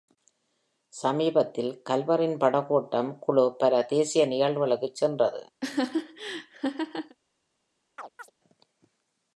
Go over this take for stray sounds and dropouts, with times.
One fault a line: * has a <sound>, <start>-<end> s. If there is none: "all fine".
* has a laugh, 5.6-7.2 s
* has a chirp, 8.0-8.3 s